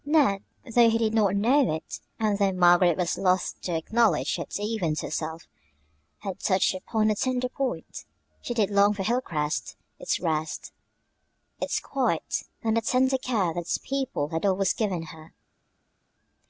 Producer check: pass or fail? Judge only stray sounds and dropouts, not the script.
pass